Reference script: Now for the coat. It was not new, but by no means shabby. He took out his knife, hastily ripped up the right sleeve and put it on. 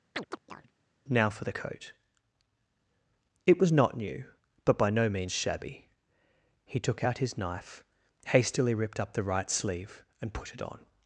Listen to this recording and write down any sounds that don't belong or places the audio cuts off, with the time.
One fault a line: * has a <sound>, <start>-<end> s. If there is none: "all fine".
* has a chirp, 0.1-0.7 s